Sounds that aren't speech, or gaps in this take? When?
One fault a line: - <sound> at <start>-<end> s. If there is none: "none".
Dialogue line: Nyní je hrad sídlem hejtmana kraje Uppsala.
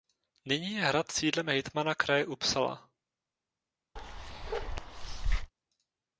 - bark at 4.0-5.5 s